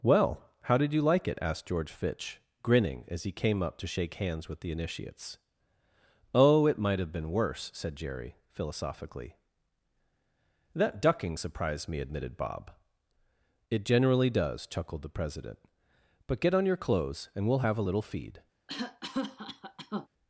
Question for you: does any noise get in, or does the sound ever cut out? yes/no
yes